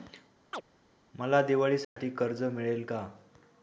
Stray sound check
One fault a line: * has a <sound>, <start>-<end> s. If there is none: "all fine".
* has a chirp, 0.5-0.6 s
* has a dropout, 1.8-2.0 s